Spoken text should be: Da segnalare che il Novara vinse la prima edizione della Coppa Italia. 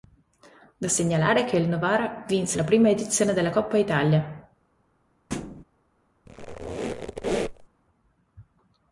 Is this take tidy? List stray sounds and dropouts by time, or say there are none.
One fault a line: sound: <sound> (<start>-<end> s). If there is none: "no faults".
sound: thud (5.3-5.6 s)
sound: squeak (6.3-7.7 s)